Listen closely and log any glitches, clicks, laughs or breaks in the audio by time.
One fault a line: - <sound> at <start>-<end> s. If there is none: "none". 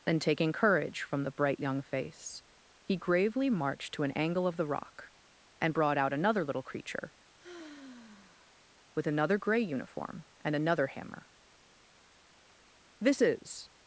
- sigh at 7.4-8.6 s